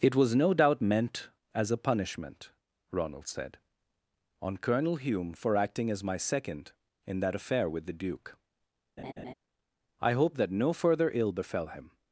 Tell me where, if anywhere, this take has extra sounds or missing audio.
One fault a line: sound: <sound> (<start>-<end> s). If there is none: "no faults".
sound: laugh (9.0-9.3 s)